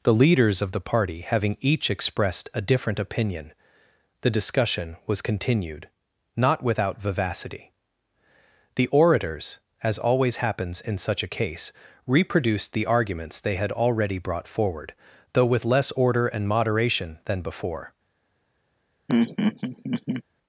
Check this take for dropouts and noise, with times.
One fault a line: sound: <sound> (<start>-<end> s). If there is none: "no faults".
sound: laugh (19.1-20.2 s)